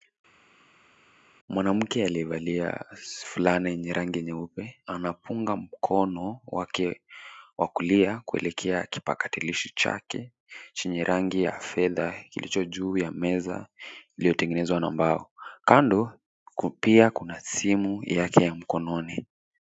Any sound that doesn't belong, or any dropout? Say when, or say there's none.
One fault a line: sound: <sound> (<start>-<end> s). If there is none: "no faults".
no faults